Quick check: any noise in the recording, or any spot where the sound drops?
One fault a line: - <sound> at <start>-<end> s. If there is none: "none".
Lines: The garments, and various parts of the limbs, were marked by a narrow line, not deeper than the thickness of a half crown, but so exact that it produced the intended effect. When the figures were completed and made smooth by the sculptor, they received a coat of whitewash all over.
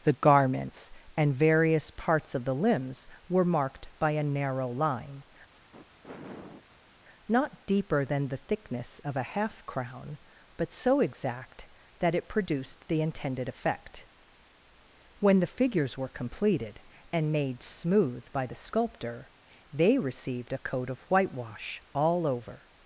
- sniff at 5.5-7.0 s